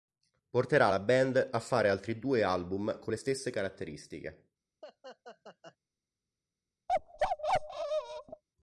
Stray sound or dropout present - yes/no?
yes